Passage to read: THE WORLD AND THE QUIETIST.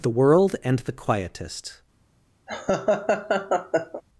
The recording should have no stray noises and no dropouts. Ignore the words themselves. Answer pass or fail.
fail